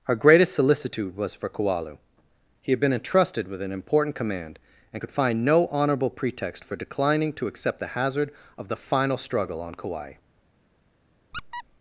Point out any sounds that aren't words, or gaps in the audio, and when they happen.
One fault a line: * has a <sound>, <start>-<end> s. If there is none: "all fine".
* has a squeak, 11.3-11.6 s